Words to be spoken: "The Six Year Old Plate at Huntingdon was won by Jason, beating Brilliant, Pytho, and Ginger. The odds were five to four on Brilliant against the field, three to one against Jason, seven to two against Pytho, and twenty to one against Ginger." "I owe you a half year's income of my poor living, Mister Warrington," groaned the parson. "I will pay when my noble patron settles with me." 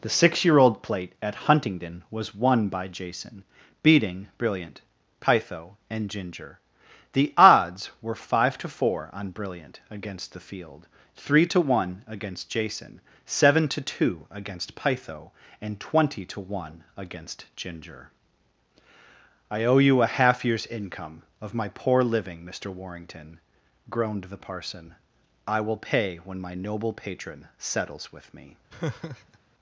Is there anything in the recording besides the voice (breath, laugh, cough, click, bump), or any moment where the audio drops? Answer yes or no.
yes